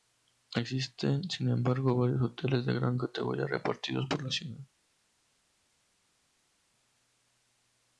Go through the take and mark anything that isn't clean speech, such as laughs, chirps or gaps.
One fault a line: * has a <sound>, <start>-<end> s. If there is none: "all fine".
all fine